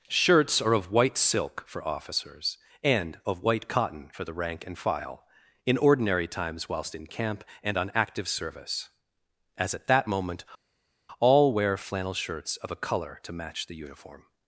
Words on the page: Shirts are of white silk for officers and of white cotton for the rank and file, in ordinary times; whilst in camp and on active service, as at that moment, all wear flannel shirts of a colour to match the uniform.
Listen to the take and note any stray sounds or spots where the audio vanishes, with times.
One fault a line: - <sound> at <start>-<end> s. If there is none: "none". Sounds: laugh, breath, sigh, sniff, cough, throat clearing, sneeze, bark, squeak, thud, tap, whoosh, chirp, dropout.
none